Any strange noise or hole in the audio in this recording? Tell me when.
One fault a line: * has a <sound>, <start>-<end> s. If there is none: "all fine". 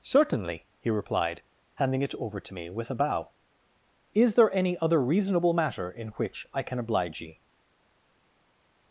all fine